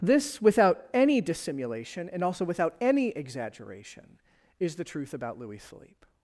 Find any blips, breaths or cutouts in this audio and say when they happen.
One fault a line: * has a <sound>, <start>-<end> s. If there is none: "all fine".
all fine